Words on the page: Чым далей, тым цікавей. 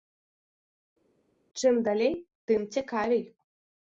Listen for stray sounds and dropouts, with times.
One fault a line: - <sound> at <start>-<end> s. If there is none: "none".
none